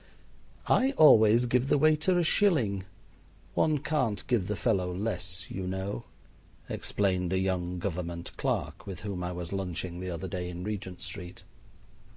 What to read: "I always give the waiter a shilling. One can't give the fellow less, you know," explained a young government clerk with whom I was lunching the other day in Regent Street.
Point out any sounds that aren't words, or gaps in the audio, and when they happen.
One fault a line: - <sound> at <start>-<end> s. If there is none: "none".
none